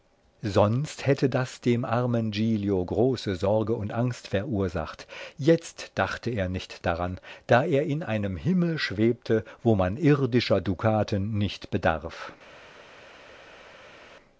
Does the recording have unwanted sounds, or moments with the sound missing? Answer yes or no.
no